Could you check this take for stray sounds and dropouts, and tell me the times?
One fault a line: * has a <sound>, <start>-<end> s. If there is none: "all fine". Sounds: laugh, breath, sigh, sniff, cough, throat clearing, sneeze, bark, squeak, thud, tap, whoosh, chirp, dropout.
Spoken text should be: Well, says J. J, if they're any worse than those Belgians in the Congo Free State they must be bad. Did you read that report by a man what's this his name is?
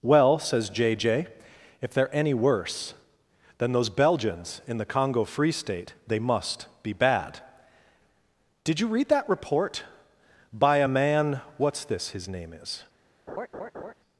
* has a laugh, 13.3-13.9 s